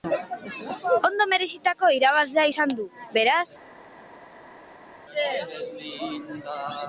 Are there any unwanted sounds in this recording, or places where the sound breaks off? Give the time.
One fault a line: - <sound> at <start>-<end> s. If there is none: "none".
none